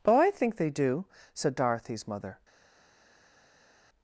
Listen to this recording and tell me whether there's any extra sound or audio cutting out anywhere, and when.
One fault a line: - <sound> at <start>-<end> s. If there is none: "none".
none